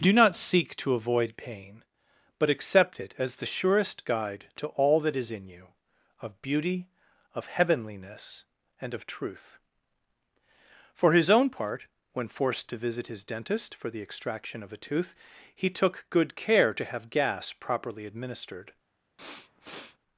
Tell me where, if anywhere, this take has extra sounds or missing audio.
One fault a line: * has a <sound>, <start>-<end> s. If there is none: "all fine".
* has a sniff, 19.2-20.0 s